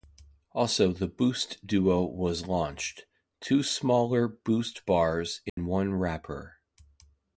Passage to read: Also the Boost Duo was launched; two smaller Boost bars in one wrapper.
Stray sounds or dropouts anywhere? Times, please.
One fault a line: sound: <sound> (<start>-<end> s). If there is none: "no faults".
sound: dropout (5.5-5.6 s)